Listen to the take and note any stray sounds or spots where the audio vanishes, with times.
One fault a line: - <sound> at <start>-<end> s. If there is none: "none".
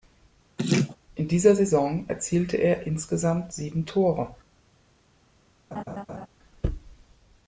- laugh at 0.6-1.0 s
- laugh at 5.7-6.3 s